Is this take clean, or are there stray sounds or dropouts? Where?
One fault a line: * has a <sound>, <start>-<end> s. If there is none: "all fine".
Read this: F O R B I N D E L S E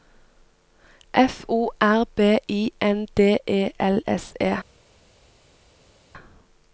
all fine